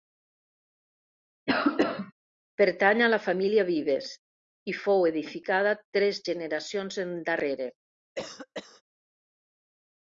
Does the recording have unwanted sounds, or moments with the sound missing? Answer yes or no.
yes